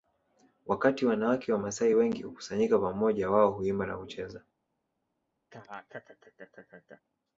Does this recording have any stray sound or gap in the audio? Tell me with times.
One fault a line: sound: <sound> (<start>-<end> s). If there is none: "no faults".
sound: laugh (5.5-7.0 s)